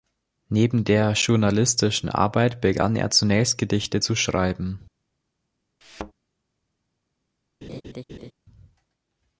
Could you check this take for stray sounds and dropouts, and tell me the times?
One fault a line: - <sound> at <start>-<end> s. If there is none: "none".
- thud at 5.8-6.1 s
- laugh at 7.6-8.3 s